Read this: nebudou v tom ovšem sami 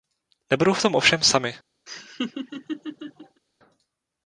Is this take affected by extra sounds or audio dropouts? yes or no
yes